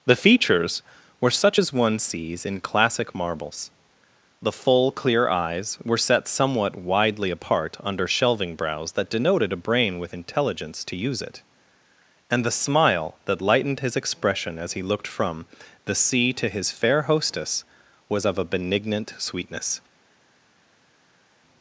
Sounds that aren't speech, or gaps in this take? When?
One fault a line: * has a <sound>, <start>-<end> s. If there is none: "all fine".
all fine